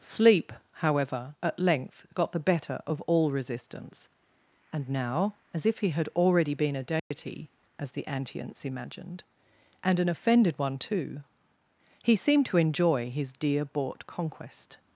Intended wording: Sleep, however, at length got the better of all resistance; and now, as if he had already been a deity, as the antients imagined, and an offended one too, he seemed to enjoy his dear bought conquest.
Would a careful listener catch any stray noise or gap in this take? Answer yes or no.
yes